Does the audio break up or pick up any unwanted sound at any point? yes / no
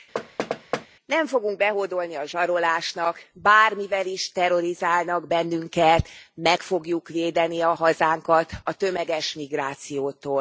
yes